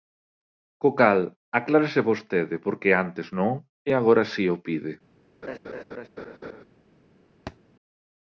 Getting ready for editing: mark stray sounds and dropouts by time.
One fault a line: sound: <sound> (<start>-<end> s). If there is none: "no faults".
sound: laugh (5.4-6.6 s)
sound: thud (7.5-7.6 s)